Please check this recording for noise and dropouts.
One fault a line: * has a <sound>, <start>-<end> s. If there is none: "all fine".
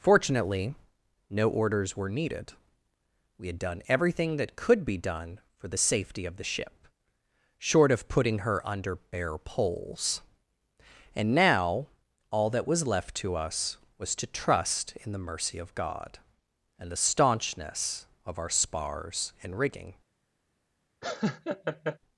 * has a laugh, 21.0-22.0 s